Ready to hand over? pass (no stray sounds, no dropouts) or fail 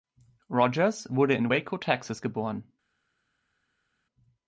pass